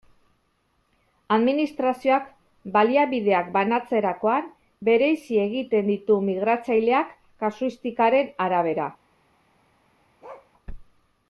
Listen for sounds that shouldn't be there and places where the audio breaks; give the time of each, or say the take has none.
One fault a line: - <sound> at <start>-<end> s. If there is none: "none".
- bark at 10.2-10.5 s